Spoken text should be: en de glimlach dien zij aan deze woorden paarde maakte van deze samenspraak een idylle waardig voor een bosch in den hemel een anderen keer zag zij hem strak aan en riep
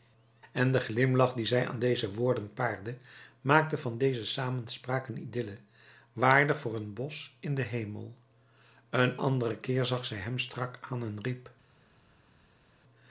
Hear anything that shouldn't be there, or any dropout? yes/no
no